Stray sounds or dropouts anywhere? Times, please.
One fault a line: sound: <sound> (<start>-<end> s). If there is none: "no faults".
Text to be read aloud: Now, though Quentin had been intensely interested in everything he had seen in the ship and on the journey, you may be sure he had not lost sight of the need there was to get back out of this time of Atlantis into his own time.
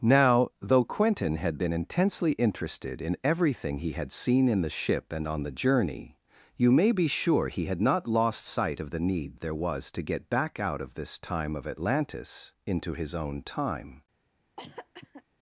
sound: cough (14.6-15.2 s)